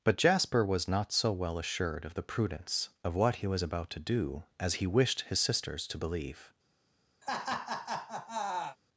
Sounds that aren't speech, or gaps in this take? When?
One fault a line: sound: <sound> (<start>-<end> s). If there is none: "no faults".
sound: laugh (7.2-8.8 s)